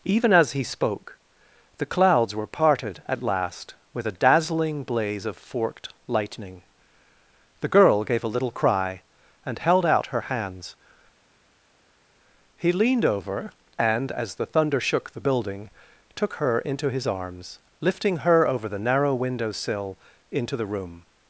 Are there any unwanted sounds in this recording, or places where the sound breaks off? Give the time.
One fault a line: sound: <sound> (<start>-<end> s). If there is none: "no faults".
no faults